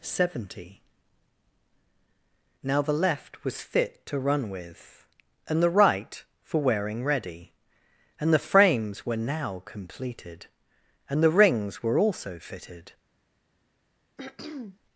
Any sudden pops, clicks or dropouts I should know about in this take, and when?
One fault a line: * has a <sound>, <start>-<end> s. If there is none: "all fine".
* has a throat clearing, 14.2-14.8 s